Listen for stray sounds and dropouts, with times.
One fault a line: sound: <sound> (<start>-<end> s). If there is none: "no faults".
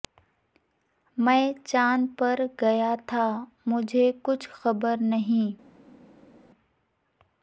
no faults